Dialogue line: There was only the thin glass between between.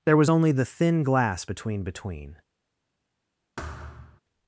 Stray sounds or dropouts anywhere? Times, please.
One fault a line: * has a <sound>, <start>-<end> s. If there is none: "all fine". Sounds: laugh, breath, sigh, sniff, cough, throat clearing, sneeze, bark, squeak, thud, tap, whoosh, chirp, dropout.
* has a thud, 3.6-4.2 s